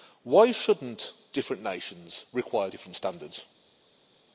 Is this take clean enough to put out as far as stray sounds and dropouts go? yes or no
yes